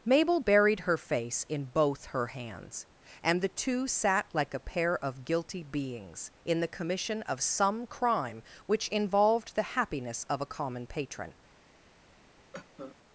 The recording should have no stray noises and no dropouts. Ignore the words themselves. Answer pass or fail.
fail